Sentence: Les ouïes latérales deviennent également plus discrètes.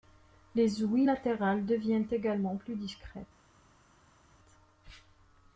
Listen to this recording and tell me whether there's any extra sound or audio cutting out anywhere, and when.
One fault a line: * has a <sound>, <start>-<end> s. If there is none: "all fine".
all fine